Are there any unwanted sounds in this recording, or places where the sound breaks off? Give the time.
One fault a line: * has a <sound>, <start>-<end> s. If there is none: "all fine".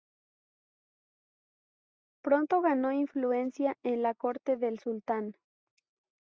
all fine